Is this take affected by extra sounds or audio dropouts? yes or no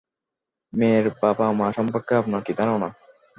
no